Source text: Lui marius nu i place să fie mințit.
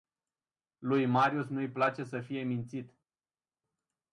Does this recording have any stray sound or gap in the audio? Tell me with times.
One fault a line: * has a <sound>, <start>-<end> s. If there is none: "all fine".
all fine